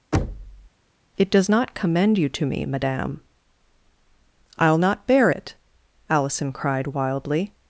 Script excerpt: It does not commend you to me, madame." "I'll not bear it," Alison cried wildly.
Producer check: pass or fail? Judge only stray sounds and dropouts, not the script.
fail